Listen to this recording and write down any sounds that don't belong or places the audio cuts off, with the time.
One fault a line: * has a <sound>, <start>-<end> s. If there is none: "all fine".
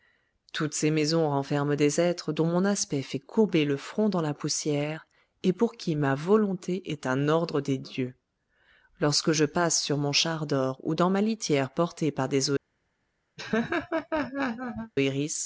* has a laugh, 13.4-14.9 s